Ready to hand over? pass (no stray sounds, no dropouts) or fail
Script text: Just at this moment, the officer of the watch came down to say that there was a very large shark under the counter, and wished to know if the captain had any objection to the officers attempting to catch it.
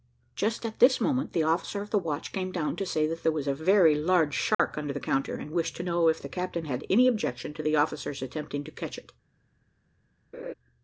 fail